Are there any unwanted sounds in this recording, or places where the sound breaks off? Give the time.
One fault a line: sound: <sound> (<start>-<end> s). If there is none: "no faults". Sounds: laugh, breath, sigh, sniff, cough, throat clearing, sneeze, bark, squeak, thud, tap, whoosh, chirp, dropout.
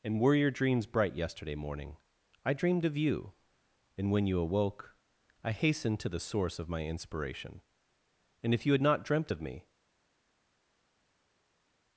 no faults